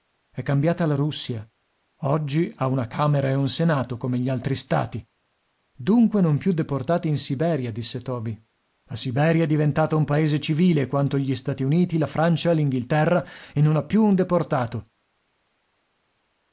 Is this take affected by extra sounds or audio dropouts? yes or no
no